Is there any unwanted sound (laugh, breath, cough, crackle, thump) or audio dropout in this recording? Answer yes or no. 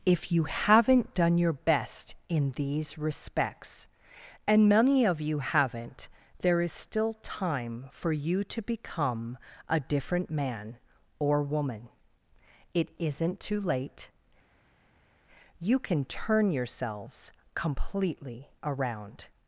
no